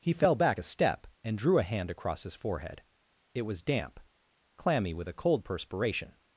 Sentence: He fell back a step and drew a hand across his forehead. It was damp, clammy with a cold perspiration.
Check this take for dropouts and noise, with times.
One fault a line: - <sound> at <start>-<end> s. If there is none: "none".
none